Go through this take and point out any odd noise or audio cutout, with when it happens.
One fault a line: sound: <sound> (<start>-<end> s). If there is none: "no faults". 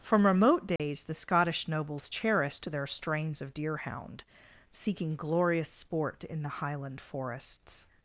sound: dropout (0.8-0.8 s)